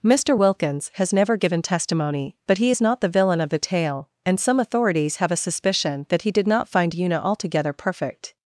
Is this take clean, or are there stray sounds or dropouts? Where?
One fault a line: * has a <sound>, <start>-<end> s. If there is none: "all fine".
all fine